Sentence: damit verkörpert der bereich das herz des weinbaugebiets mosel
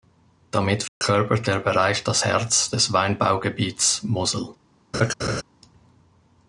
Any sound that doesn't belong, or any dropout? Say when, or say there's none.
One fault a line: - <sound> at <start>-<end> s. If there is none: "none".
- dropout at 0.9-1.0 s
- laugh at 4.9-5.4 s